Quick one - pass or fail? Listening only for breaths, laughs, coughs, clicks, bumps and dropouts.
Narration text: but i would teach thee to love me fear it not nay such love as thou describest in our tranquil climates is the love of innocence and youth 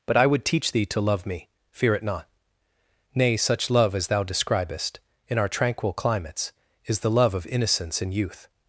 pass